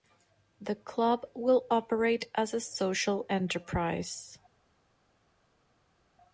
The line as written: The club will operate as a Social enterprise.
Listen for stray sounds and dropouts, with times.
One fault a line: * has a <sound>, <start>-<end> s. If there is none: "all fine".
all fine